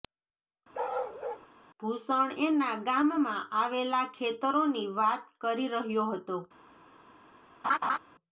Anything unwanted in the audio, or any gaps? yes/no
yes